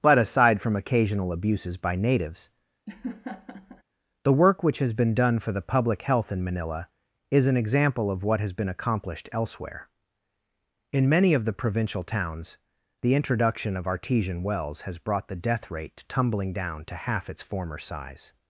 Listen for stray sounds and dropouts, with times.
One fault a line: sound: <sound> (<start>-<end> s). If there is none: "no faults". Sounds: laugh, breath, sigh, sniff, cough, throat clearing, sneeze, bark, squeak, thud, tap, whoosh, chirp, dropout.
sound: laugh (2.9-3.8 s)